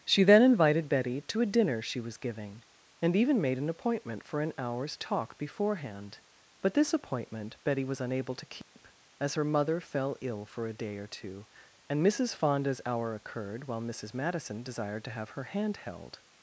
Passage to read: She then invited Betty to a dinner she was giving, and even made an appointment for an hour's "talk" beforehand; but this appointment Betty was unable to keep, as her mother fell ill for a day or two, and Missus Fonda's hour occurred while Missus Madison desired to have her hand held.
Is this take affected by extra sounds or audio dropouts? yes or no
yes